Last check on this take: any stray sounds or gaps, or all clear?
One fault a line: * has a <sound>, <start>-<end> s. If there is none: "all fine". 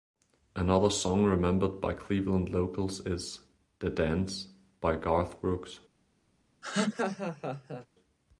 * has a laugh, 6.6-7.9 s